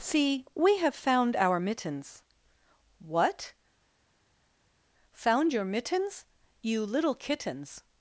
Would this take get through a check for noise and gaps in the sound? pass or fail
pass